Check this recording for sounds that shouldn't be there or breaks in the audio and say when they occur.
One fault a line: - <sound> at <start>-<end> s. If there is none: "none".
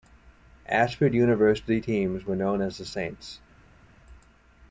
none